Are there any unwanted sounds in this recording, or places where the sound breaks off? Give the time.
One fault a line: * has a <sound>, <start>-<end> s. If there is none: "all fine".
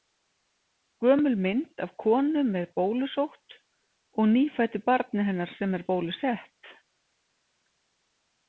all fine